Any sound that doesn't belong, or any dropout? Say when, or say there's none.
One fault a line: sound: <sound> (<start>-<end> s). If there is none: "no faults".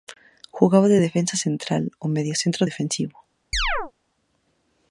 sound: chirp (3.5-3.9 s)